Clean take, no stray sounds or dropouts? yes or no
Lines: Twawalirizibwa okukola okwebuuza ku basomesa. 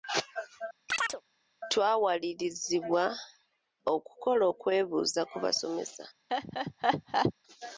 no